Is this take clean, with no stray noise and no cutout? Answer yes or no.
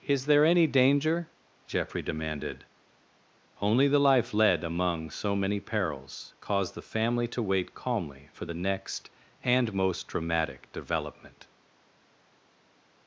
yes